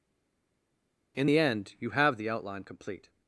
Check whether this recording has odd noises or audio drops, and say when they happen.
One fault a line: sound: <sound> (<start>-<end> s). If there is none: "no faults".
no faults